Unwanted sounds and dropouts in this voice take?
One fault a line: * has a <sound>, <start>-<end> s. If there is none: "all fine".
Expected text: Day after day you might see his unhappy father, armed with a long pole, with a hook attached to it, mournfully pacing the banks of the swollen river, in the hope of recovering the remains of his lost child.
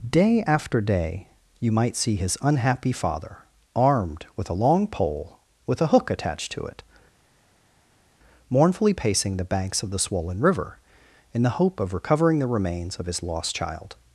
all fine